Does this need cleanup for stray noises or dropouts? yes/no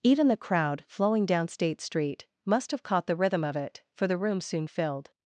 no